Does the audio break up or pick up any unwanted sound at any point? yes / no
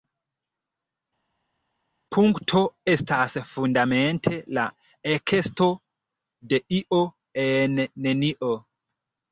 no